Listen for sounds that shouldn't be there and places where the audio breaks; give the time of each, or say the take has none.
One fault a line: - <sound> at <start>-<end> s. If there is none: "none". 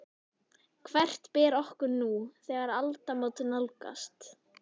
none